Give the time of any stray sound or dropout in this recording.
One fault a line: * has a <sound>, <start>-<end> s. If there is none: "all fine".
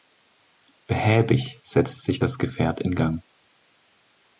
all fine